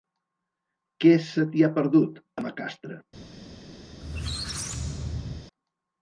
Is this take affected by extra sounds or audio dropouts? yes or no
yes